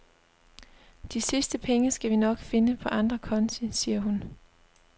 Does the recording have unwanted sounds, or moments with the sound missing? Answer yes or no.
no